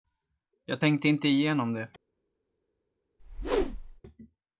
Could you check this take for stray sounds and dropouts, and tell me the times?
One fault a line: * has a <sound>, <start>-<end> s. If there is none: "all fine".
* has a whoosh, 3.2-4.0 s